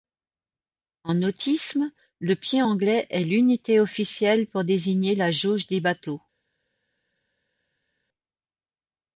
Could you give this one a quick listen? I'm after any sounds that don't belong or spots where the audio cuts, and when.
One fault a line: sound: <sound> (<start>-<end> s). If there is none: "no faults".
no faults